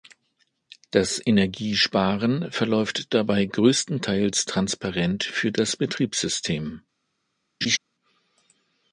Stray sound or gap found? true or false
true